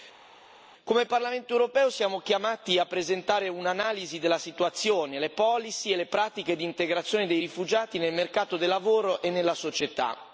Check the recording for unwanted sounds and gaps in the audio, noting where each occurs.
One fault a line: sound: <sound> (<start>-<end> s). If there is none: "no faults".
no faults